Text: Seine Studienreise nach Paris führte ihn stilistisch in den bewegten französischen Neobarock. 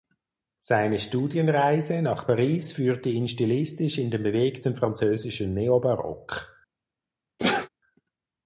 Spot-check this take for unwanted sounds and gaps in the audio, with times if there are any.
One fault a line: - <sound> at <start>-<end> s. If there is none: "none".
- sneeze at 7.4-7.7 s